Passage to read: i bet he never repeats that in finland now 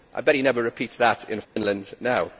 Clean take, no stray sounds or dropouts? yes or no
no